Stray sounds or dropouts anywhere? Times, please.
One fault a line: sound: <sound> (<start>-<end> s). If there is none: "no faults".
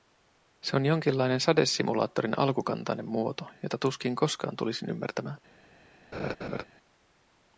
sound: laugh (6.1-6.6 s)